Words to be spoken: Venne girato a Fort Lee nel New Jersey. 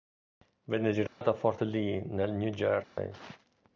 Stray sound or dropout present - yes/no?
yes